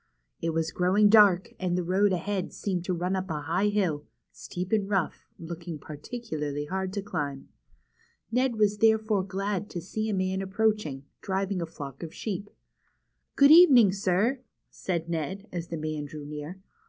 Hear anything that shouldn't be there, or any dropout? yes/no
no